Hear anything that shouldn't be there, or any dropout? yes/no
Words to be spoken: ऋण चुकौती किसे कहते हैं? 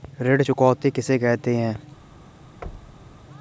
yes